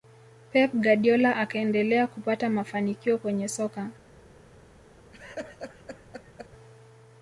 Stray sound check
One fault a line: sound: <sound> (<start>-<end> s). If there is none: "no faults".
sound: laugh (5.1-6.5 s)